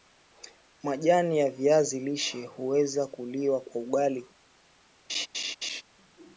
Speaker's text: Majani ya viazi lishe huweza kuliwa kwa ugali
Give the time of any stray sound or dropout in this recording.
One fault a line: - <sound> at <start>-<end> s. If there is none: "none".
- laugh at 5.1-5.8 s